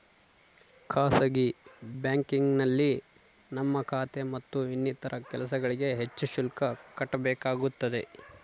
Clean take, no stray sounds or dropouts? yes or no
yes